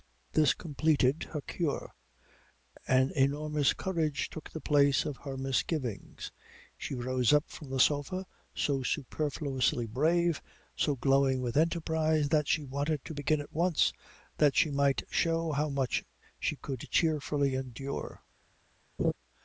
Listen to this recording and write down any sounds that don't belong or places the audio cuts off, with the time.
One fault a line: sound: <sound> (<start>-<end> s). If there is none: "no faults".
sound: laugh (19.0-19.1 s)